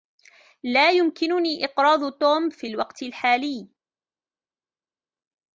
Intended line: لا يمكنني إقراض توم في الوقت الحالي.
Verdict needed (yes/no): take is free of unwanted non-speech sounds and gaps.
yes